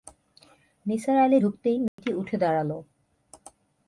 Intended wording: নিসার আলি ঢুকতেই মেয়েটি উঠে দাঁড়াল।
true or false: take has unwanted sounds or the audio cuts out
true